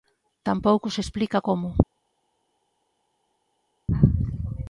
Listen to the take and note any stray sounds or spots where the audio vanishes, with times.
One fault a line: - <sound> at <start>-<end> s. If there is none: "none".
none